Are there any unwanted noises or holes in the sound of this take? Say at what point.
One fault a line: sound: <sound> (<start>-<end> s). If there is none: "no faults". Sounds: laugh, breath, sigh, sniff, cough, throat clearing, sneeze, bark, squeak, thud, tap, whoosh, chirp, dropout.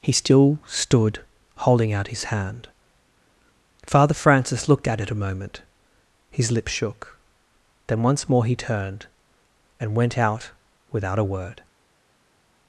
no faults